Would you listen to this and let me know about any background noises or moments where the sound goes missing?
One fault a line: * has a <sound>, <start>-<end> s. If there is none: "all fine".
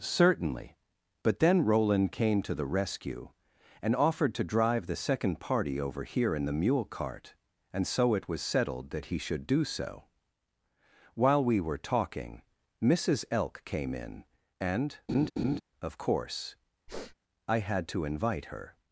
* has a laugh, 15.1-15.6 s
* has a sniff, 16.9-17.1 s